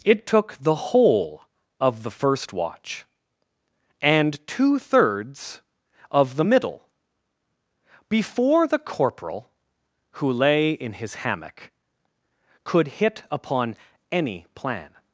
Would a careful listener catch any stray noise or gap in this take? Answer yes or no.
no